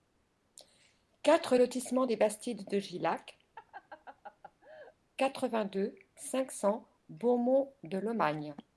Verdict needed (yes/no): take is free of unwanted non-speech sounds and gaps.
no